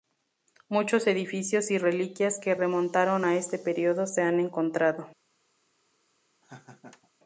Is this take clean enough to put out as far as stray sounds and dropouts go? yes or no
no